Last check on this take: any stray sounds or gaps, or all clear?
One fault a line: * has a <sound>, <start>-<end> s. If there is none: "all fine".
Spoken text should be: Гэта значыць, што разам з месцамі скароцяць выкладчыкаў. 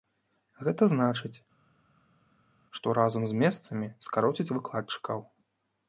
all fine